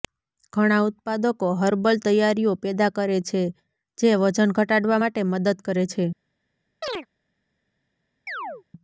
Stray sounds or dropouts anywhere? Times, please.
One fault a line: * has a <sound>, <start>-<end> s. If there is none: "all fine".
* has a chirp, 6.8-7.1 s
* has a chirp, 8.3-8.6 s